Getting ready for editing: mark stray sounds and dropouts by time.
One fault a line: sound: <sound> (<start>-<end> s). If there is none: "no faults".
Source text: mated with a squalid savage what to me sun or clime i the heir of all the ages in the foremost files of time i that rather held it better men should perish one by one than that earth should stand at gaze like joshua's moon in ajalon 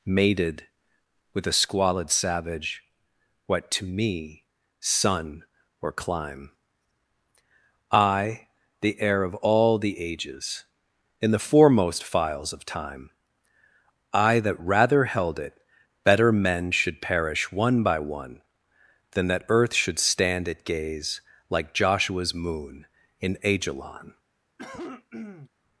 sound: cough (24.6-25.5 s)